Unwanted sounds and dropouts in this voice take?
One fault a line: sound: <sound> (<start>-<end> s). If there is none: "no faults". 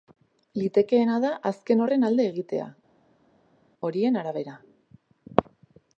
no faults